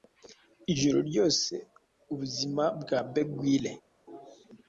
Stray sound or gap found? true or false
false